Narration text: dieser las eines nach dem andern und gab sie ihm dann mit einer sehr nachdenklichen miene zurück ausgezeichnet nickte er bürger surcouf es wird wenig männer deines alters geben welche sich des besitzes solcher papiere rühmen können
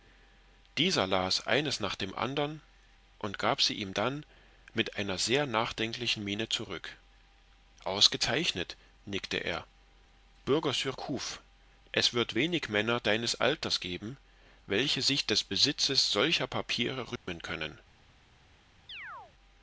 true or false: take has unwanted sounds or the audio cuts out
true